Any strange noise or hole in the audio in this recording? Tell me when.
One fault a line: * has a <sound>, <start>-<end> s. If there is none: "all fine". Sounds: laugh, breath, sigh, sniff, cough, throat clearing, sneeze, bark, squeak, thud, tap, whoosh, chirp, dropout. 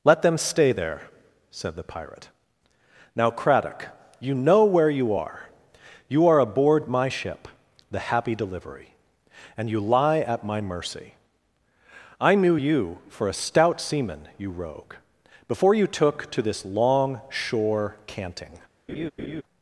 * has a laugh, 18.9-19.4 s